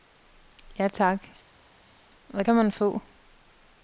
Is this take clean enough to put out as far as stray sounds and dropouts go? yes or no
yes